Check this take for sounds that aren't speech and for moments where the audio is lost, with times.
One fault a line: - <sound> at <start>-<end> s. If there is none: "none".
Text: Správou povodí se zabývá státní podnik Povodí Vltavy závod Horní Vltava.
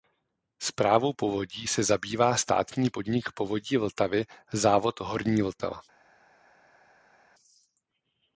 none